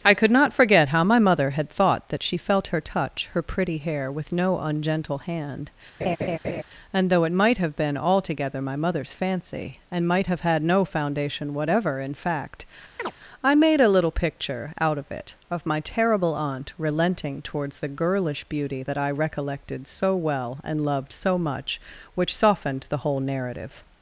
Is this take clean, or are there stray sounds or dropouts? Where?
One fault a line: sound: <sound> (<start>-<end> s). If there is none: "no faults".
sound: laugh (6.0-6.6 s)
sound: chirp (13.0-13.1 s)